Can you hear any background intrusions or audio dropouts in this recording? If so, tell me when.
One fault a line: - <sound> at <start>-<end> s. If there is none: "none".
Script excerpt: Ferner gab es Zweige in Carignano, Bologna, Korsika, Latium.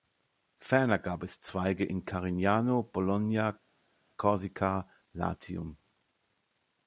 none